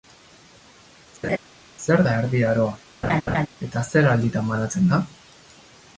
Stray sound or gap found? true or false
true